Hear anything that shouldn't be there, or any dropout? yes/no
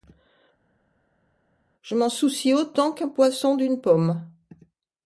no